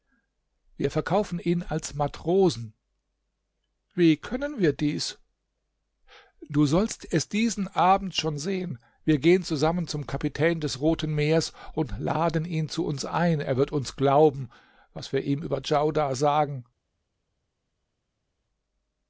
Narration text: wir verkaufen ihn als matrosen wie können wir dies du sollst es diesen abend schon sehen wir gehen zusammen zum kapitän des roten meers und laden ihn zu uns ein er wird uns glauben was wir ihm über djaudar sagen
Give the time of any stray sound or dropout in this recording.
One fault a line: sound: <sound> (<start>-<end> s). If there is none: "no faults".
no faults